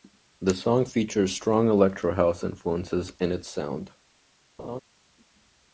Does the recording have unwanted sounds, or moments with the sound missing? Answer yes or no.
yes